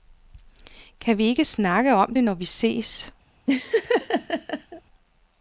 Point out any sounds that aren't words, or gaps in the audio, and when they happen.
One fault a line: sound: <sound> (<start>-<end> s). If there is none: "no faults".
sound: laugh (3.5-4.8 s)